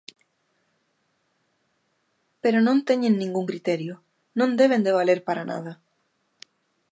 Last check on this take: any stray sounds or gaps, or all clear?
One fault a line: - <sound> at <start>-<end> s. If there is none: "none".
none